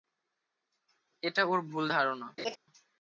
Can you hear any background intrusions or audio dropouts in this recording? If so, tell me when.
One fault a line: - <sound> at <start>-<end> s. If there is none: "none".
- laugh at 2.4-2.6 s